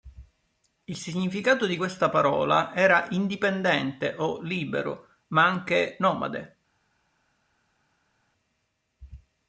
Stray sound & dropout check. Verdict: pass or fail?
pass